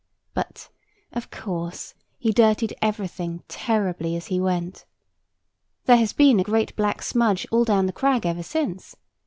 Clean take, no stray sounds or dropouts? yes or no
yes